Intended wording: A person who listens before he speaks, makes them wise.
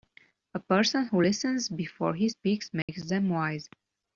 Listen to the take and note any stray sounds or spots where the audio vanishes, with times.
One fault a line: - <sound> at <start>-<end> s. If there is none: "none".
- dropout at 2.8-2.9 s